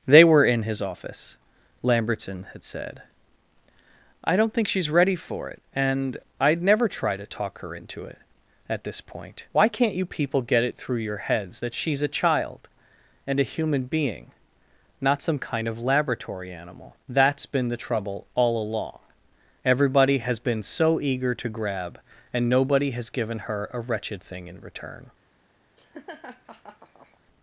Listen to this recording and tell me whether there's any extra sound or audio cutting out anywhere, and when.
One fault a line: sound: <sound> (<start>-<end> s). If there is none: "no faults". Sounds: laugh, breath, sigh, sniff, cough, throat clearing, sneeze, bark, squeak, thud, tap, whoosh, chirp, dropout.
sound: laugh (25.8-27.2 s)